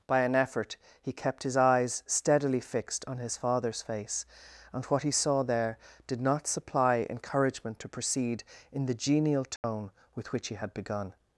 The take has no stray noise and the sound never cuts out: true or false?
false